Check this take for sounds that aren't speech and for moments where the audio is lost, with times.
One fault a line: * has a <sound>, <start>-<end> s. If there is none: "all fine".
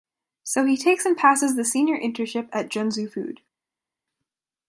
all fine